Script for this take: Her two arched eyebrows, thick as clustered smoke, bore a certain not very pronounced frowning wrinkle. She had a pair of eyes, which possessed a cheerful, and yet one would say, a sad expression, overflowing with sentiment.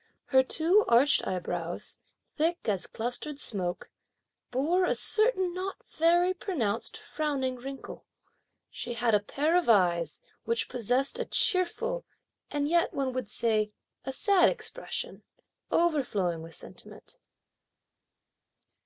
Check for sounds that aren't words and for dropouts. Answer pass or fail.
pass